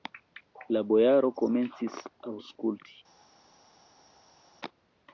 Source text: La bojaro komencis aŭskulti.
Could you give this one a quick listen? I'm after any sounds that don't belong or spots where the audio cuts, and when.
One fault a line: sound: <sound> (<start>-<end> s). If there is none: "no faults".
no faults